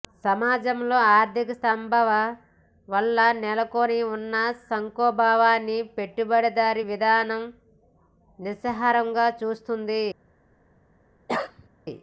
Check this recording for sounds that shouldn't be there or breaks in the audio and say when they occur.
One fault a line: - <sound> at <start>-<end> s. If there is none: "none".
- cough at 11.3-11.7 s